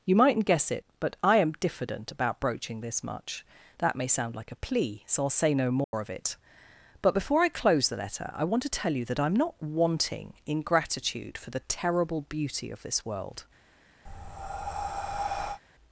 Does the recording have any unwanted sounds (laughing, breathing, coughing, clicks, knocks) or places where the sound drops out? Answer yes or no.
yes